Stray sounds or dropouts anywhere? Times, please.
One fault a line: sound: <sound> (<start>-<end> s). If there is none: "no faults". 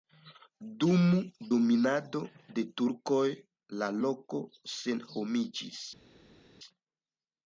no faults